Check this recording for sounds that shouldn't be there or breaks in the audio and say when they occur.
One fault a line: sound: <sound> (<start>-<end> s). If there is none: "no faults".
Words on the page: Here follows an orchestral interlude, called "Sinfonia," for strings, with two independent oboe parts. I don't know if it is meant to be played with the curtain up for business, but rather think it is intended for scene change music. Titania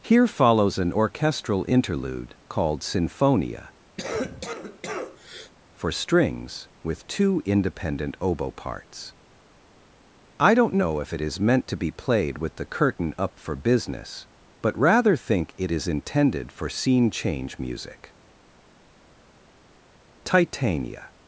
sound: cough (4.0-5.5 s)